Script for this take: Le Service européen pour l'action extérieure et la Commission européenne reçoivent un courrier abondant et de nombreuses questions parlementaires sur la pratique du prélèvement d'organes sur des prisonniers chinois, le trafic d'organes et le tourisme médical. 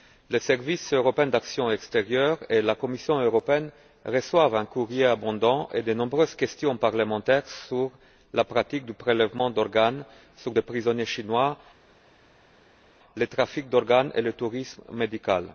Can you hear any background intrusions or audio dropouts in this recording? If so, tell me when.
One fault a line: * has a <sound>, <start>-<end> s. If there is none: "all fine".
all fine